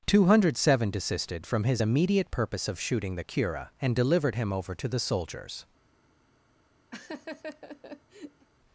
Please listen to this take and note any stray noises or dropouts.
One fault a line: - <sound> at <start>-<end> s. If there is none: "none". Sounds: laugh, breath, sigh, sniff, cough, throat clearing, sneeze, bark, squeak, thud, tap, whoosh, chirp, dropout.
- laugh at 6.9-8.5 s